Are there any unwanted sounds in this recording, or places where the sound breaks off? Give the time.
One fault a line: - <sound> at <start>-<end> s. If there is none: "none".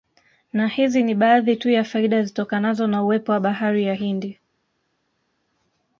none